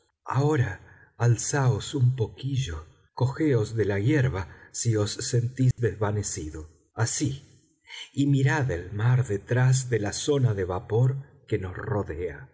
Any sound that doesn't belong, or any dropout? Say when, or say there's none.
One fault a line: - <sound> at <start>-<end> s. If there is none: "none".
- dropout at 5.7-5.8 s